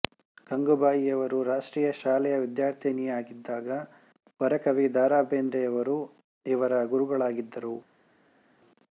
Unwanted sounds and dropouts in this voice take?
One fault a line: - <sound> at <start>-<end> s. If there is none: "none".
none